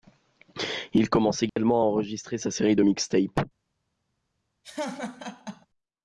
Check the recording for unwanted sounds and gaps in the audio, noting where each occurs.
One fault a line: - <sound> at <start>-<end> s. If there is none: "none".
- dropout at 1.5-1.6 s
- laugh at 4.6-5.7 s